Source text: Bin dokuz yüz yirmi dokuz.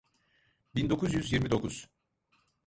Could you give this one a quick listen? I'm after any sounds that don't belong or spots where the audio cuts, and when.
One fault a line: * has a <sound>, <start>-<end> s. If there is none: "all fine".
all fine